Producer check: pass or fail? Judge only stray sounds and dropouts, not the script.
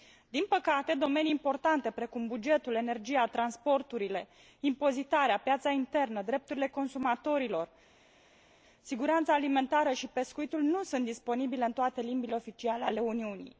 pass